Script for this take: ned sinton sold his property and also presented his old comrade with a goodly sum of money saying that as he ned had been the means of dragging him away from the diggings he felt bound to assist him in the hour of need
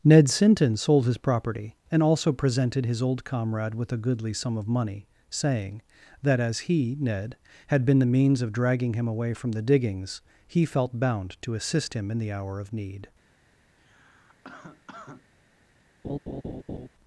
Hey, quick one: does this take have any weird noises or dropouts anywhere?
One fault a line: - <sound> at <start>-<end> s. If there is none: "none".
- cough at 13.8-15.3 s
- laugh at 16.0-16.9 s